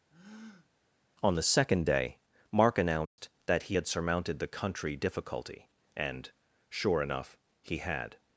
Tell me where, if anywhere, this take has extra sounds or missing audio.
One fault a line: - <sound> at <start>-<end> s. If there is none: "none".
- breath at 0.1-0.7 s
- dropout at 3.1-3.2 s